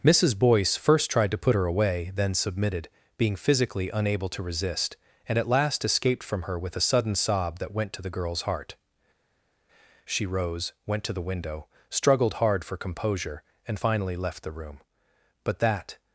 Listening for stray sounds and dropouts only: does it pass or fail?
pass